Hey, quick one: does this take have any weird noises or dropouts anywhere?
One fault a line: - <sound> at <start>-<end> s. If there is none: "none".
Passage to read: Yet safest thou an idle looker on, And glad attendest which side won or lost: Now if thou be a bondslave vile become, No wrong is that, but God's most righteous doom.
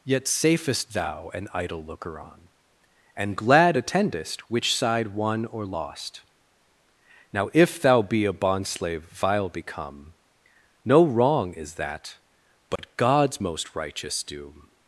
- dropout at 12.8-12.8 s